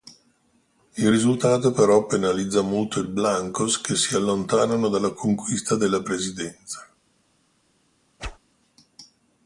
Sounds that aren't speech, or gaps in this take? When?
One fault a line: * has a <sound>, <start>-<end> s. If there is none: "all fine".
* has a whoosh, 8.2-8.4 s